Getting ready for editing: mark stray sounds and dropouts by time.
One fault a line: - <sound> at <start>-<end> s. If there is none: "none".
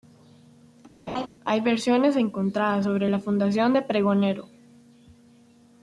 - laugh at 1.1-1.3 s